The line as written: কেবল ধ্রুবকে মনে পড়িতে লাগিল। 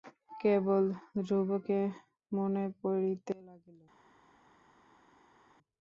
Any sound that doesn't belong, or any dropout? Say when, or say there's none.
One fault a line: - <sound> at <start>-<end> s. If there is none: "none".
none